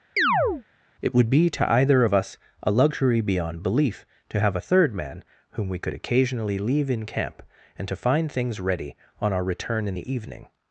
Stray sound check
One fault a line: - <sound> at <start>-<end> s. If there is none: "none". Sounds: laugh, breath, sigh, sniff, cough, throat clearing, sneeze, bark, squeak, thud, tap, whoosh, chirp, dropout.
- chirp at 0.2-0.6 s